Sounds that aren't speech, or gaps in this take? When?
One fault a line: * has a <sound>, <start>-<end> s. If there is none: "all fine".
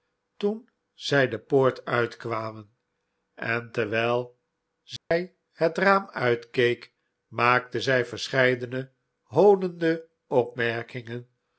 * has a dropout, 5.0-5.1 s